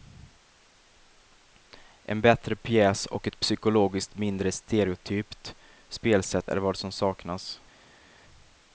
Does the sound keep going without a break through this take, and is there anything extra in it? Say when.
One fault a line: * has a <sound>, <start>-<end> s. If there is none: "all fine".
all fine